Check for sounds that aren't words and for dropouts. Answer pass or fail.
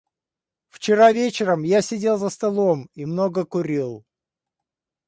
pass